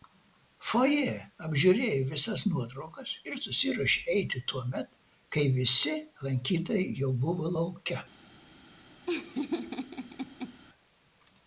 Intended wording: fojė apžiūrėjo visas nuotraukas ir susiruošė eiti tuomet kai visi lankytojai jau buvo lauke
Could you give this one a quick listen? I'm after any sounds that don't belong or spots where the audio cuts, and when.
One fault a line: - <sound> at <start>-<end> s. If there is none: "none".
- laugh at 9.1-10.6 s